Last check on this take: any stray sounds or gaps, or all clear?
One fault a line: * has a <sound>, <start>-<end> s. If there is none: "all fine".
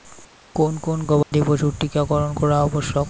* has a dropout, 1.2-1.3 s